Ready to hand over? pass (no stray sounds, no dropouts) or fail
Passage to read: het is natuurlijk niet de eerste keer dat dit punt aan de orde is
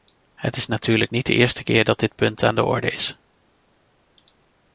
pass